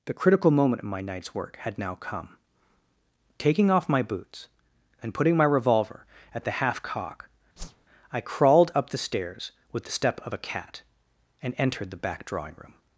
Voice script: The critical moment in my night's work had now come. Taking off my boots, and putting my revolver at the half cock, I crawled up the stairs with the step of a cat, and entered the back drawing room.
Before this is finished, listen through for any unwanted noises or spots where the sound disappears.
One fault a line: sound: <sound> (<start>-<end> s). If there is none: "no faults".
sound: whoosh (7.6-7.9 s)